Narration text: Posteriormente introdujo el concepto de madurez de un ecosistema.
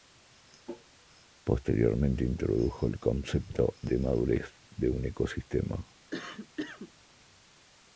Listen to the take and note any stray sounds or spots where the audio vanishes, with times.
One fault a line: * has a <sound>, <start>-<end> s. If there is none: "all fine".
* has a cough, 6.1-6.9 s